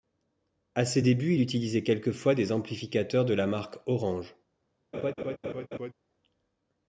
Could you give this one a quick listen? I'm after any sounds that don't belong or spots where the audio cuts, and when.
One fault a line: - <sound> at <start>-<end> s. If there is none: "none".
- laugh at 4.9-5.9 s